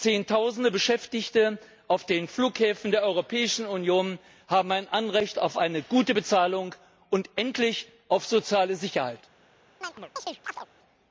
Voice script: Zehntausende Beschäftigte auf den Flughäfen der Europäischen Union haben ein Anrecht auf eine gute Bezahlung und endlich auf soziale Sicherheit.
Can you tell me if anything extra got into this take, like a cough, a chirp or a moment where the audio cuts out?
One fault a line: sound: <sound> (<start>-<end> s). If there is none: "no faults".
sound: chirp (9.8-10.7 s)